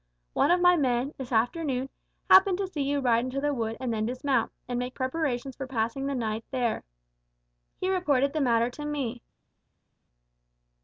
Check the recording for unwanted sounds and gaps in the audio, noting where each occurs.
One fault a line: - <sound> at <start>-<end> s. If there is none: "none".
none